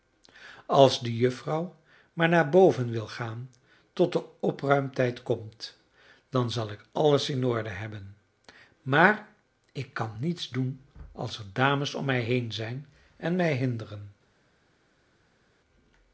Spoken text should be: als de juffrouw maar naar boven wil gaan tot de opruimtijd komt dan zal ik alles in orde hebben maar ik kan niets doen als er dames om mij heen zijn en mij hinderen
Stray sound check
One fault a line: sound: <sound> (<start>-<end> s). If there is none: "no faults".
no faults